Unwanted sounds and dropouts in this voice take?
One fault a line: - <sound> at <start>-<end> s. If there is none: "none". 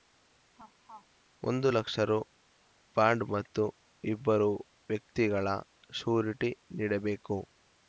- laugh at 0.5-1.1 s